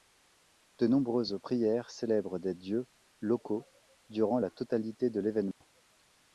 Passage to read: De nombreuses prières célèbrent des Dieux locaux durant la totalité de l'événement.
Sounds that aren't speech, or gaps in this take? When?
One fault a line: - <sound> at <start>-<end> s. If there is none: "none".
- dropout at 5.5-5.6 s